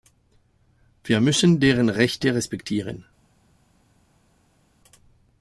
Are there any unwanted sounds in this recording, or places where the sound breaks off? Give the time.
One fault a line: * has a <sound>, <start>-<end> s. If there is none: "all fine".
all fine